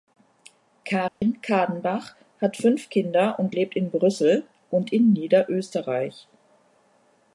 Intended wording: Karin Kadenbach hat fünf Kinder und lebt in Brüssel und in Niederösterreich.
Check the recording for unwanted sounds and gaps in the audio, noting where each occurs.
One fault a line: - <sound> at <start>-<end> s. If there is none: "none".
- dropout at 1.1-1.2 s